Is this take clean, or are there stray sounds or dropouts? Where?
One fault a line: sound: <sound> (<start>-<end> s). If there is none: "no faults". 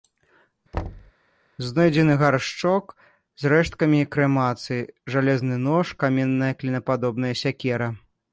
sound: thud (0.7-1.1 s)